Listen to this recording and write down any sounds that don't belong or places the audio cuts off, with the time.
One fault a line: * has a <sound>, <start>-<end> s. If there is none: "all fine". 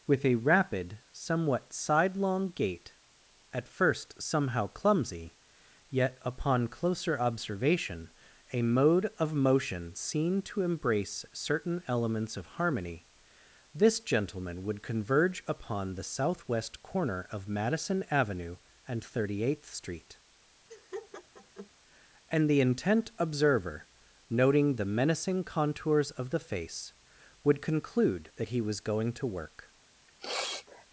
* has a laugh, 20.7-21.7 s
* has a sniff, 30.1-30.9 s